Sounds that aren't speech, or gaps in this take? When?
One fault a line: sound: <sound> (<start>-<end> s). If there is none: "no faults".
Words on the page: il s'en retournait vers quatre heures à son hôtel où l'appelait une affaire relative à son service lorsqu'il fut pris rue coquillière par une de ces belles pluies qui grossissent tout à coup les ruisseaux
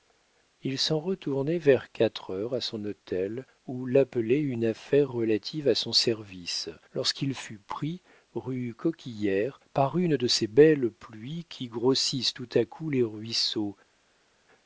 no faults